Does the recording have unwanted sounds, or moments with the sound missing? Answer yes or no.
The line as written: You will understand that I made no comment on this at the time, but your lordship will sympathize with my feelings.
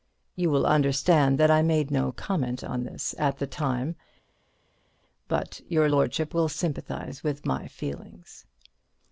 no